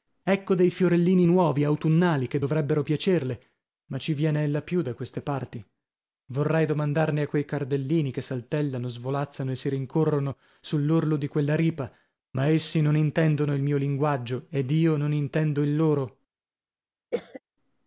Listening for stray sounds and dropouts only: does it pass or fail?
fail